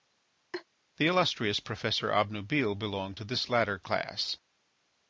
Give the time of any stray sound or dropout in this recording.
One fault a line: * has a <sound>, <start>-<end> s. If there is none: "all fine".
* has a laugh, 0.5-0.6 s